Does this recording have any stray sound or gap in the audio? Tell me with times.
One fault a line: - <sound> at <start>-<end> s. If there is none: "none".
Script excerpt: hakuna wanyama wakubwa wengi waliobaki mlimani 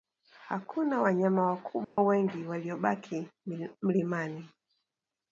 - dropout at 1.8-2.0 s